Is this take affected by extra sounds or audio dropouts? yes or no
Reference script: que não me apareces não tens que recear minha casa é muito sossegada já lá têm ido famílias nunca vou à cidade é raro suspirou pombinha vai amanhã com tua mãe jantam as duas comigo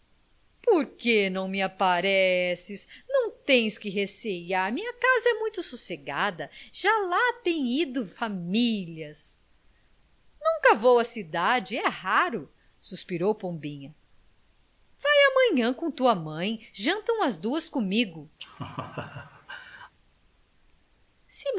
yes